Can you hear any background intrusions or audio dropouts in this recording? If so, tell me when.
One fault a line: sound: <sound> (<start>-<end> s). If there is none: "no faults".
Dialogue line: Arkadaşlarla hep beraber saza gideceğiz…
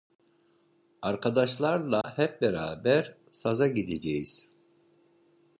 sound: dropout (2.0-2.0 s)